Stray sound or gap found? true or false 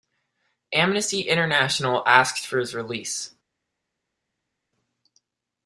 false